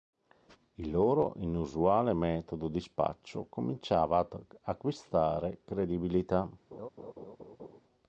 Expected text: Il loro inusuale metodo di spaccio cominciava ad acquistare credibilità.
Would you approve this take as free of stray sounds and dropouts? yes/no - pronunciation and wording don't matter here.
no